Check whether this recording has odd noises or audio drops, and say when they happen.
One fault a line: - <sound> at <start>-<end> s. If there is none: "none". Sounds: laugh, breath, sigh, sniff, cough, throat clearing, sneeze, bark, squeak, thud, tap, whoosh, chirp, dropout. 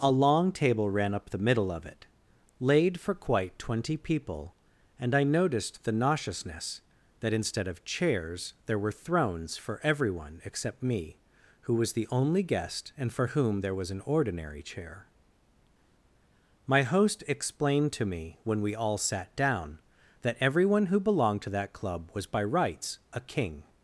none